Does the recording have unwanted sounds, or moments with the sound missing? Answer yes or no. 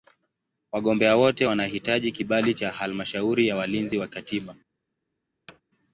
yes